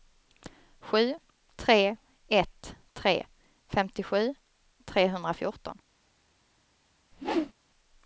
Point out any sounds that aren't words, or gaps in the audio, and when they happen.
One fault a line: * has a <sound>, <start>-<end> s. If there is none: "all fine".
* has a whoosh, 7.1-7.5 s